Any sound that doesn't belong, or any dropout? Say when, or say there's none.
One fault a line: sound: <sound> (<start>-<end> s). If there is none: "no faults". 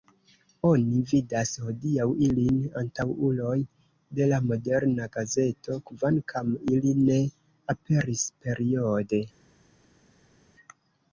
no faults